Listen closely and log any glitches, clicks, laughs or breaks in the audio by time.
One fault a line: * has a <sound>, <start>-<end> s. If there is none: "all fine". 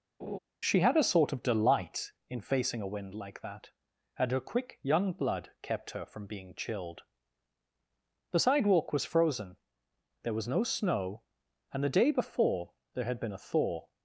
* has a laugh, 0.2-0.4 s